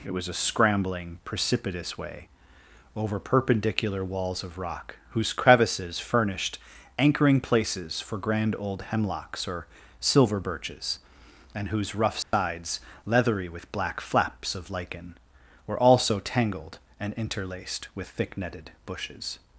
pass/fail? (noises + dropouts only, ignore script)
fail